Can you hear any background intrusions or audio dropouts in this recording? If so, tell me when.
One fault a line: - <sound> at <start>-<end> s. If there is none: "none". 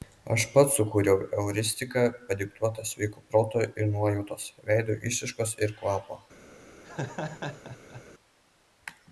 - laugh at 6.8-8.0 s